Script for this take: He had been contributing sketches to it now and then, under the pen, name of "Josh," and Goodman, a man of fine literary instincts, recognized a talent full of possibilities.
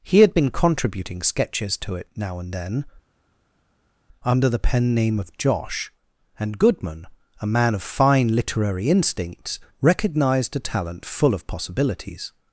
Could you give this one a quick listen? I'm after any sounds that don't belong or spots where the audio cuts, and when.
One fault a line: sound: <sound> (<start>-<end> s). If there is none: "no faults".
no faults